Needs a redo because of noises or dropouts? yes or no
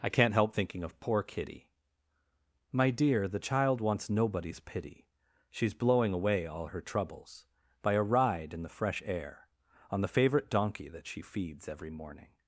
no